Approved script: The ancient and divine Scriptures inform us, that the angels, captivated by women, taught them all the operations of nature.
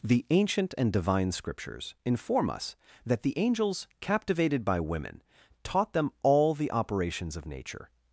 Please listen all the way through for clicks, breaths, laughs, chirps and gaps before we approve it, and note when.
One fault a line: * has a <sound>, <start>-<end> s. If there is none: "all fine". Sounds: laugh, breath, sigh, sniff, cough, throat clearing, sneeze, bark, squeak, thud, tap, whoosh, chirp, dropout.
all fine